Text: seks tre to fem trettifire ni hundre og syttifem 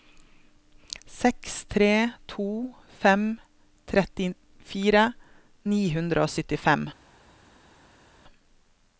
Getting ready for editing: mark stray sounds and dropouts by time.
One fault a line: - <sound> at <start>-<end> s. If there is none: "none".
none